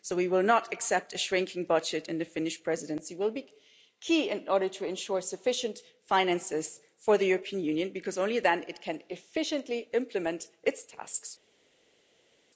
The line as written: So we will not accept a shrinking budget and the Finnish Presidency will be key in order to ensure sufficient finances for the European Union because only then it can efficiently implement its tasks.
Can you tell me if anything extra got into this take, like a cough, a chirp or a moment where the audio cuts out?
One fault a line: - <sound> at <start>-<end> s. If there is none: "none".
none